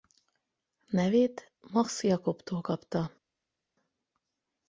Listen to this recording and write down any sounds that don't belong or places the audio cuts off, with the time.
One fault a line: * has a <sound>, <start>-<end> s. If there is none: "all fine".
all fine